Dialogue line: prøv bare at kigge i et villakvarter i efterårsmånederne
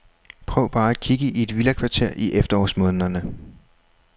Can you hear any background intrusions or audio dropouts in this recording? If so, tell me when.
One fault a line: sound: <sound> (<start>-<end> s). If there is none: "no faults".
no faults